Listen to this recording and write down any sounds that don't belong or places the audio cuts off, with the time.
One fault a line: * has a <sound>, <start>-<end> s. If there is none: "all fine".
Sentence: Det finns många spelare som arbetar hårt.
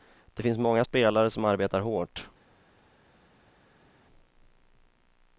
all fine